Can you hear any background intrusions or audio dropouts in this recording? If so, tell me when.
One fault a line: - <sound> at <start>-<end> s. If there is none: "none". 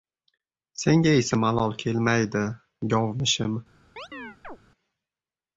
- chirp at 4.0-4.6 s